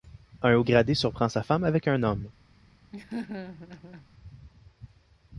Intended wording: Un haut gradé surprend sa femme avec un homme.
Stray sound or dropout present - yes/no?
yes